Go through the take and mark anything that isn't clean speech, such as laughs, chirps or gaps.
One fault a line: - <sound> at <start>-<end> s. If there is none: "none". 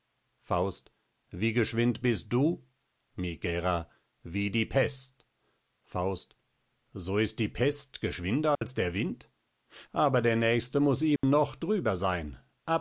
- dropout at 8.5-8.6 s
- dropout at 11.2-11.2 s